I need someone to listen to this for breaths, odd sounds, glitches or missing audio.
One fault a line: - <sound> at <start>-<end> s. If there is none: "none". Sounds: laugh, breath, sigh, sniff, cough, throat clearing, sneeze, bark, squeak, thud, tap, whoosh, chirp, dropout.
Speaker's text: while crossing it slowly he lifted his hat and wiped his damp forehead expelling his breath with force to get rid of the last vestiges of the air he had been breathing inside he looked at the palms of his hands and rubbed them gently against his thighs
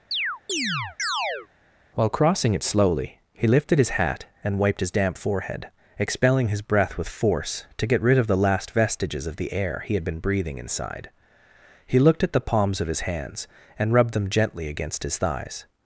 - chirp at 0.1-1.5 s